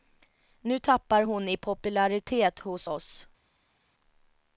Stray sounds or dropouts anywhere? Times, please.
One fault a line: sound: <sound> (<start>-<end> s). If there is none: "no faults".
no faults